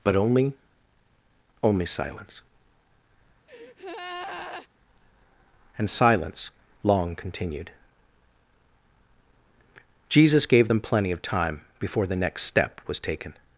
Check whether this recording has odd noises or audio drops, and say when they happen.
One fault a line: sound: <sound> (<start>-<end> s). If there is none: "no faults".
sound: breath (3.5-4.7 s)